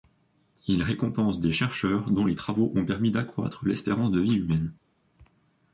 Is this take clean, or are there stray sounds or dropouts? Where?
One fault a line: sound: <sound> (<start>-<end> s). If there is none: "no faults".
no faults